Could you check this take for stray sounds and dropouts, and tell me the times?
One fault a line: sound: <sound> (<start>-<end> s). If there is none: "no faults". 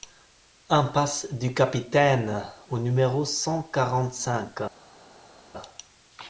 no faults